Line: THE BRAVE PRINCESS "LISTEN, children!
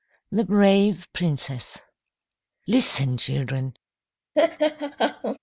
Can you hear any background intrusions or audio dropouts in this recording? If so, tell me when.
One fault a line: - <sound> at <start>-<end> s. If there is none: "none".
- laugh at 4.3-5.4 s